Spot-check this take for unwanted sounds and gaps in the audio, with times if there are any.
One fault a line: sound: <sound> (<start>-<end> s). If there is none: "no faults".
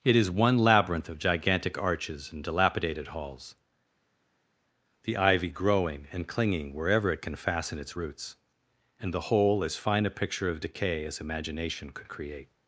no faults